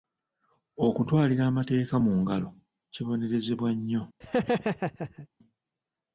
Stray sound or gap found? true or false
true